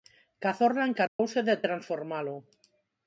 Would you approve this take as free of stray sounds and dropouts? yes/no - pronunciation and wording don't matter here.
no